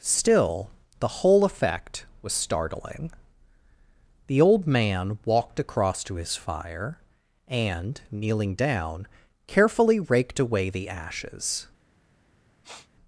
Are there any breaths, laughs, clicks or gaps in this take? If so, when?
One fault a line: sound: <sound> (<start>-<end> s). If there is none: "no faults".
sound: sniff (12.6-12.9 s)